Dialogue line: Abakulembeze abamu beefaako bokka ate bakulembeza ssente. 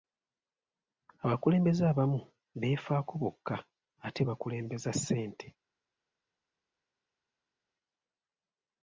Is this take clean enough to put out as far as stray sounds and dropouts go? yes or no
yes